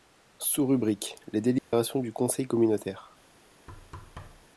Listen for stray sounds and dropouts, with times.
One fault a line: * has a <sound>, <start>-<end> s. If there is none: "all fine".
* has a dropout, 1.6-1.7 s
* has a thud, 3.7-4.5 s